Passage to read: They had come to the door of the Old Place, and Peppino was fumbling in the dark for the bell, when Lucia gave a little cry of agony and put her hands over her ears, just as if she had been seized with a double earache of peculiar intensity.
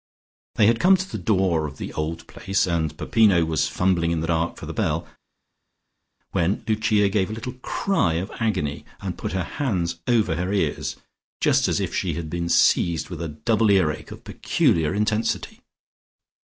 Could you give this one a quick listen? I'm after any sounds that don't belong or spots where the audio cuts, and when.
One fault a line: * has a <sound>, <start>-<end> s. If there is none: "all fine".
all fine